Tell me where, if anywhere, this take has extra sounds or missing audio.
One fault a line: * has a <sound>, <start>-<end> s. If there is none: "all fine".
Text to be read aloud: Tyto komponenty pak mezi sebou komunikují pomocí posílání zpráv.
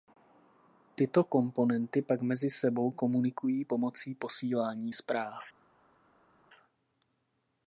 all fine